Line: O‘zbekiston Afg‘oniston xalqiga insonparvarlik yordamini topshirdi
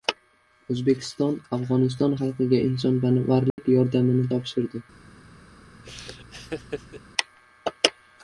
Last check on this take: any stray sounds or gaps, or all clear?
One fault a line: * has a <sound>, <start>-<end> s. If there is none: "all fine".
* has a dropout, 3.5-3.6 s
* has a laugh, 5.8-7.0 s